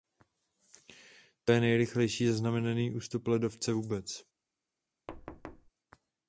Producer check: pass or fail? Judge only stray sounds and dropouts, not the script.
fail